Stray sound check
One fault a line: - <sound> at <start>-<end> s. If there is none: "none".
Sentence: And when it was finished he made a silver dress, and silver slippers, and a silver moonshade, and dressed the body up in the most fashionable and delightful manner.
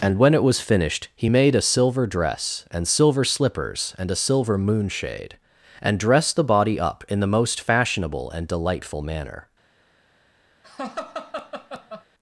- laugh at 10.6-12.0 s